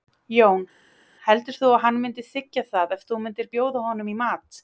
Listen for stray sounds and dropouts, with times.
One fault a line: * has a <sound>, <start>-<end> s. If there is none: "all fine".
all fine